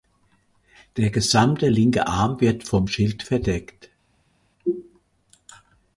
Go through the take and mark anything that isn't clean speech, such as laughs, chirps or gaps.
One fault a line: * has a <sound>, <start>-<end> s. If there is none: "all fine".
all fine